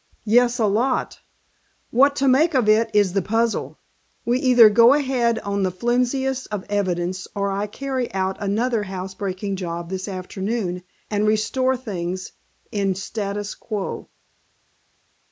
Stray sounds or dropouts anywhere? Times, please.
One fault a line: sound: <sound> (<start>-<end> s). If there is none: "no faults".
no faults